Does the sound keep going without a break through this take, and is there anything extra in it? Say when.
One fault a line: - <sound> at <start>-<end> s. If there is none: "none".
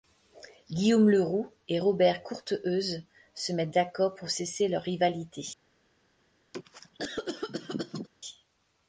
- cough at 6.5-8.1 s